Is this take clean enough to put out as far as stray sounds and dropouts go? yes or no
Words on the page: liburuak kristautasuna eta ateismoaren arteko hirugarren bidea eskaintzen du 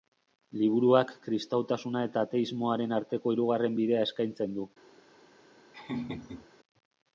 no